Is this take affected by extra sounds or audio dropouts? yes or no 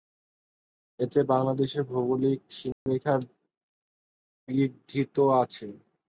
yes